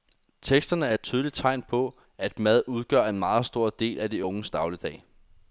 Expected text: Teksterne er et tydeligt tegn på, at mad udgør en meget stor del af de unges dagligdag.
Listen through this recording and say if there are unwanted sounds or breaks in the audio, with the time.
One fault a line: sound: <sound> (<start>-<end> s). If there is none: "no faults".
no faults